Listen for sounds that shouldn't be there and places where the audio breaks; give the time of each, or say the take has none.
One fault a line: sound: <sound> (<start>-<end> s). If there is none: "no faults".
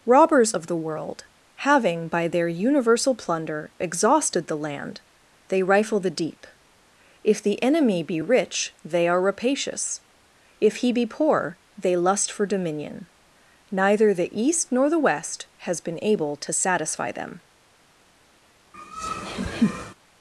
sound: laugh (18.7-19.9 s)